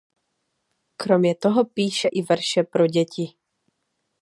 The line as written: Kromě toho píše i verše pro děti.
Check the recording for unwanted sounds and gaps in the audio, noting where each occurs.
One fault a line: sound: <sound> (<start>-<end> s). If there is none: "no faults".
no faults